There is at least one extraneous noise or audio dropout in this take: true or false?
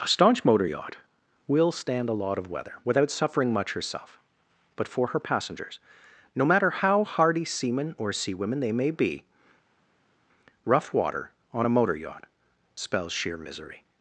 false